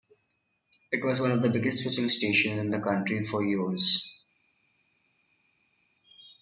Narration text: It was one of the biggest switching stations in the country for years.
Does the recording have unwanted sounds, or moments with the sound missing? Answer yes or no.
no